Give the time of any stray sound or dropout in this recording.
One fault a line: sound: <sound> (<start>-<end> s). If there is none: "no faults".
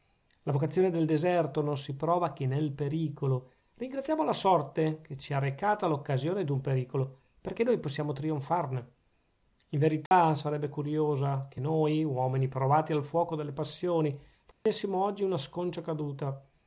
sound: dropout (10.1-10.1 s)
sound: dropout (14.5-14.7 s)